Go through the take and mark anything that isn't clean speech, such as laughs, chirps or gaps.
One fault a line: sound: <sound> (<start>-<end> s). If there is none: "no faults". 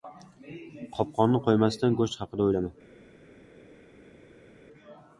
no faults